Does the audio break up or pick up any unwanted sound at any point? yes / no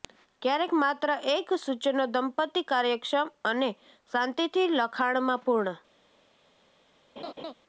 yes